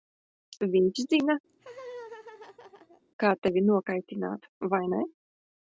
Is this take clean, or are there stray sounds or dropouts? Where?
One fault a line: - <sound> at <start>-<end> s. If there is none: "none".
- laugh at 1.5-3.0 s